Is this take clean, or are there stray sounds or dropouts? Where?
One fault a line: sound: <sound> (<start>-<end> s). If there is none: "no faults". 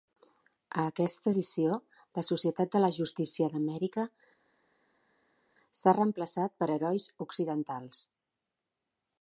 no faults